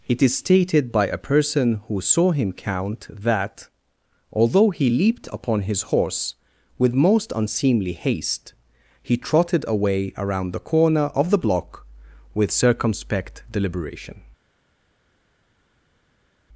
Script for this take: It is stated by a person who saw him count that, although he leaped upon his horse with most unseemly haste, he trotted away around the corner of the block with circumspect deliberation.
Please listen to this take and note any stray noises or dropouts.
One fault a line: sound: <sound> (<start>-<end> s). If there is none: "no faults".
no faults